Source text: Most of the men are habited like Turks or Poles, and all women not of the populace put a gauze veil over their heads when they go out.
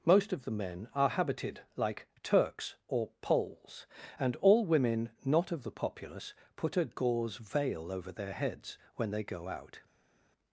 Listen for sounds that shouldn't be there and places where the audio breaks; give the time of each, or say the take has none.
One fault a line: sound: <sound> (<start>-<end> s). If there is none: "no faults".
no faults